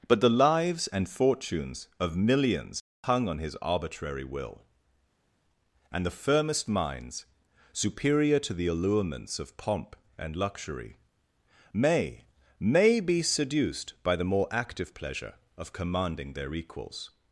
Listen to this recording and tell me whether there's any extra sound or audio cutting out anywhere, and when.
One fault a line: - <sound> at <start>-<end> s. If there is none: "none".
none